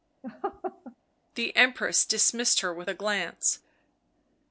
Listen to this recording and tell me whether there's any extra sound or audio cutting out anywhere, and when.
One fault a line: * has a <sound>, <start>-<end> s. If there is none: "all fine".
* has a laugh, 0.2-1.0 s